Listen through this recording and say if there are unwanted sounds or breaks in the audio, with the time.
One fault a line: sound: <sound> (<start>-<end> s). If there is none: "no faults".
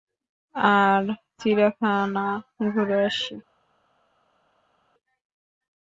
no faults